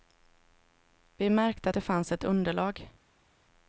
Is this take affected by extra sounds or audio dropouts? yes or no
no